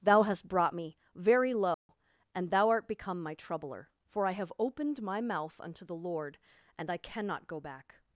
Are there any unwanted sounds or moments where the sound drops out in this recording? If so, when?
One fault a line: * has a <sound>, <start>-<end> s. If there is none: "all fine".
* has a dropout, 1.7-1.9 s